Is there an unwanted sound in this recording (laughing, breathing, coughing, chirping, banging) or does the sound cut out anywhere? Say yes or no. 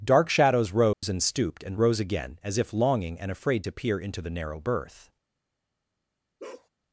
yes